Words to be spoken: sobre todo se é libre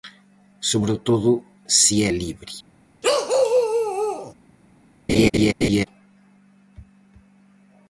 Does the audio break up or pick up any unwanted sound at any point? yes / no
yes